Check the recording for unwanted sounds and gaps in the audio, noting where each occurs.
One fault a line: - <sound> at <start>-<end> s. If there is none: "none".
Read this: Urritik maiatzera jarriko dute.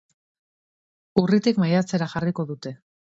none